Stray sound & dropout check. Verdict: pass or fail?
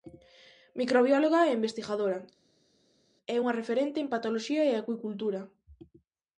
pass